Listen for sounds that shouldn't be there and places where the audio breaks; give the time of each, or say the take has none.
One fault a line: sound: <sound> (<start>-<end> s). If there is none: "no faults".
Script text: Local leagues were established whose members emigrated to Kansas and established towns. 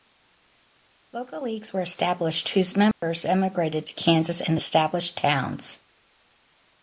sound: dropout (2.9-3.0 s)